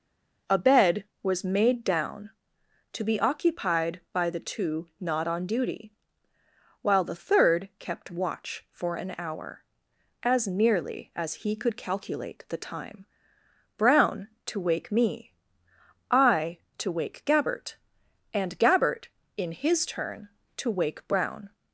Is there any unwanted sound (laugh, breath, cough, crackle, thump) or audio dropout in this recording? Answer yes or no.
no